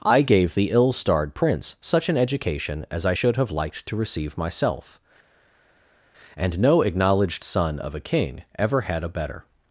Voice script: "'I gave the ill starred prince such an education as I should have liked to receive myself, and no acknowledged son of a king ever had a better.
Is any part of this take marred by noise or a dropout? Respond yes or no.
no